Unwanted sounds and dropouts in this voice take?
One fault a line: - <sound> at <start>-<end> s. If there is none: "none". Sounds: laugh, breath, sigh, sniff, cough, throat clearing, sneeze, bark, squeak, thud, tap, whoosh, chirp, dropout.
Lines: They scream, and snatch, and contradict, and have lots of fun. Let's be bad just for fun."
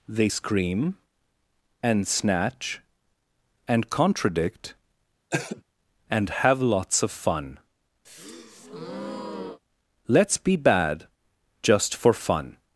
- cough at 5.3-5.6 s
- breath at 8.0-9.6 s